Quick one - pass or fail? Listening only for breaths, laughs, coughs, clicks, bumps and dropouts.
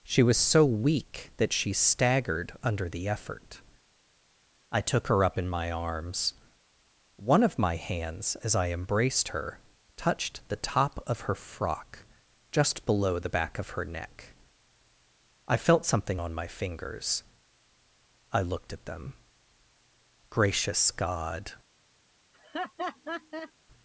fail